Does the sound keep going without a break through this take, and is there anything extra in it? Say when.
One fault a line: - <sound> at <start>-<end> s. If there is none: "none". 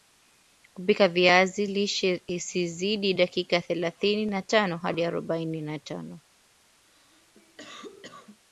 - cough at 6.9-8.4 s